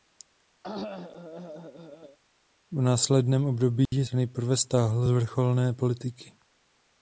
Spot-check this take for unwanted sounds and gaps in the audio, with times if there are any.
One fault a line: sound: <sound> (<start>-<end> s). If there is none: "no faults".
sound: cough (0.6-2.2 s)
sound: dropout (3.9-3.9 s)